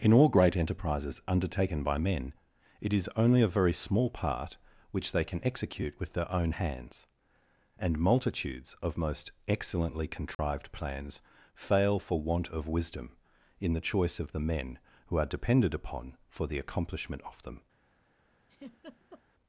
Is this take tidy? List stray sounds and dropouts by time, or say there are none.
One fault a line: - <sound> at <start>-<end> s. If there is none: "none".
- dropout at 10.3-10.4 s
- laugh at 18.5-19.2 s